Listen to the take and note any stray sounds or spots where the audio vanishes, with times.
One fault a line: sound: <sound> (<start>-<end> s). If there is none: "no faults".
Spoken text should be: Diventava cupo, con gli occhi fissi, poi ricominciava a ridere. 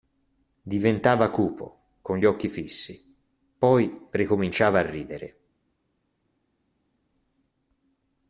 no faults